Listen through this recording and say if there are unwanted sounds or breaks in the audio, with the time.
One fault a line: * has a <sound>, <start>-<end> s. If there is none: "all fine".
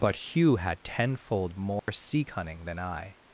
* has a dropout, 1.8-1.9 s